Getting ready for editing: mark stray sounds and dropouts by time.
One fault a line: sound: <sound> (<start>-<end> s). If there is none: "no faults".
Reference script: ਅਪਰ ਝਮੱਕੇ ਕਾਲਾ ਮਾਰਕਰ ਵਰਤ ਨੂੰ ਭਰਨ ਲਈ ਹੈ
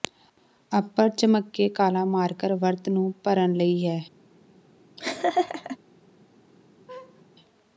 sound: laugh (5.0-5.8 s)
sound: laugh (6.9-7.2 s)